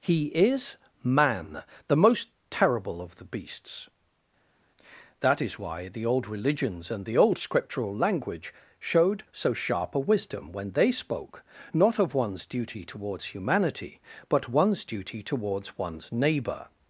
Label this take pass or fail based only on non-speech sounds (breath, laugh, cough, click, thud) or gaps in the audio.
pass